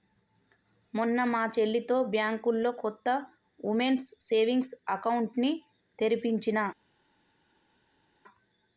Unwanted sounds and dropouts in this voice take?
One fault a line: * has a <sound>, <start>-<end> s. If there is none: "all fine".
all fine